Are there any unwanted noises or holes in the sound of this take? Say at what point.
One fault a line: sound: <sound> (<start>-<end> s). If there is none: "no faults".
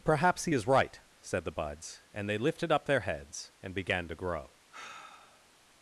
sound: sigh (4.7-5.5 s)